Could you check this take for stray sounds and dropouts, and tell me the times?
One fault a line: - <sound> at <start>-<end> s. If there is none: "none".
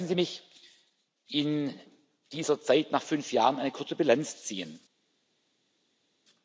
none